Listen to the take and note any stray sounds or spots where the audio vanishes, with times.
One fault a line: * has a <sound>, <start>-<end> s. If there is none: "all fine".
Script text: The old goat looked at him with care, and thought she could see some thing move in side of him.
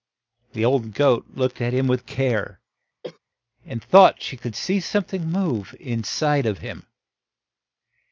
* has a cough, 3.0-3.2 s